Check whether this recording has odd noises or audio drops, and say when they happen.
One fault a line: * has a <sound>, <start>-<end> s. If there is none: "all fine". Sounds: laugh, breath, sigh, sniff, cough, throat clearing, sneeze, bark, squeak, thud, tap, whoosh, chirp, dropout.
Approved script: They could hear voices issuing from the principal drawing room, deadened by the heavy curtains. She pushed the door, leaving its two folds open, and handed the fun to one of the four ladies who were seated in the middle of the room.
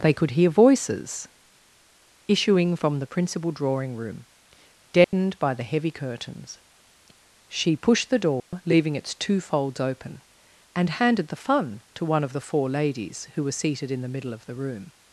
* has a dropout, 5.0-5.1 s
* has a dropout, 8.4-8.5 s